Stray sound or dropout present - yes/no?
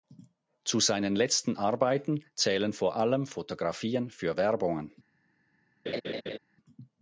yes